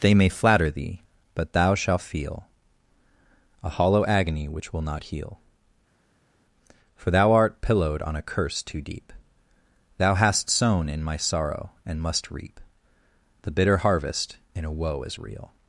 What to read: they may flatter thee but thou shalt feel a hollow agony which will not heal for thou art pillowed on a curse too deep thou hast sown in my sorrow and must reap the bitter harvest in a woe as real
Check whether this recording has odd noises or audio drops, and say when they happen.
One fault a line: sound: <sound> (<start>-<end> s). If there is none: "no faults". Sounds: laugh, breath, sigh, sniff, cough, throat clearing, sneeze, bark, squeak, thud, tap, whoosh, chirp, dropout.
no faults